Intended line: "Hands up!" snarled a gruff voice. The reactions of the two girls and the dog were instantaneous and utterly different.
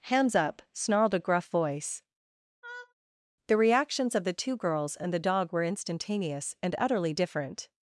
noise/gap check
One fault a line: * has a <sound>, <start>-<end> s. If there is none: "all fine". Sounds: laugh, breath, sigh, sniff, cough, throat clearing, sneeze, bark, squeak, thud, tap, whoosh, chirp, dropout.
* has a laugh, 2.6-2.9 s